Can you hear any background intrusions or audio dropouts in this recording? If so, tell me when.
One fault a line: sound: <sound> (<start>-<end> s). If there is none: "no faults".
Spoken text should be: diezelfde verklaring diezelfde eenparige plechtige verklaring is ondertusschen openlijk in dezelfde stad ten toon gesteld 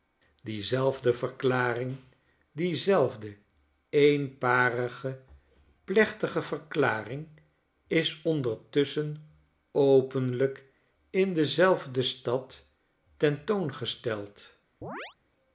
sound: chirp (14.8-15.2 s)